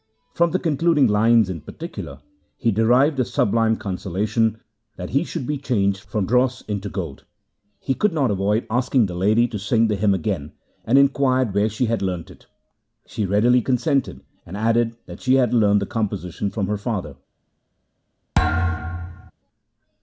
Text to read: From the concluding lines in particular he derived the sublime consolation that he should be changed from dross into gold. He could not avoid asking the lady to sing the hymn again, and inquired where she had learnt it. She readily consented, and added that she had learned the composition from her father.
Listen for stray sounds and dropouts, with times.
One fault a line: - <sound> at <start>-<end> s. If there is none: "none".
- thud at 18.3-19.3 s